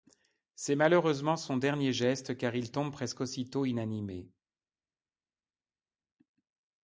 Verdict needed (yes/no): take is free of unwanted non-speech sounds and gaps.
yes